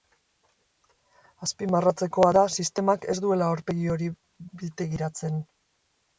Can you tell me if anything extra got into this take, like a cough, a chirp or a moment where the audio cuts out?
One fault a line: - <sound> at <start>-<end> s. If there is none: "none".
none